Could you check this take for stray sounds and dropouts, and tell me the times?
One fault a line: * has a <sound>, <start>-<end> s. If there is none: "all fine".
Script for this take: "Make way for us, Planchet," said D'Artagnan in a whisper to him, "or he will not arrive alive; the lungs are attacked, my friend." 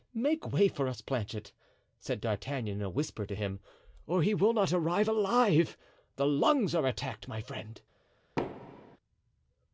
* has a thud, 8.4-9.0 s